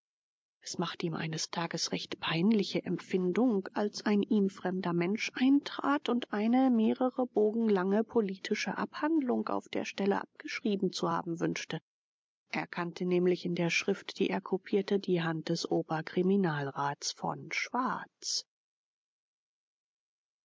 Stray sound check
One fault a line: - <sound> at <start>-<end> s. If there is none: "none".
none